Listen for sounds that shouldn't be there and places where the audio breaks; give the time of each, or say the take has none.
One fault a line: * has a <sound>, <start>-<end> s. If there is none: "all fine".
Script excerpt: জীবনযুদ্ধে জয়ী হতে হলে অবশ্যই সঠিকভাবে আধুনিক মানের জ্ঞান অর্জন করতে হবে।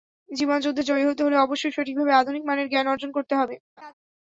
* has a laugh, 3.8-3.9 s